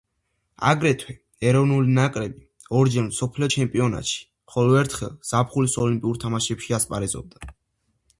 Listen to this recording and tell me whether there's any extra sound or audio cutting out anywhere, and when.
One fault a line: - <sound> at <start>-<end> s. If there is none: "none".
none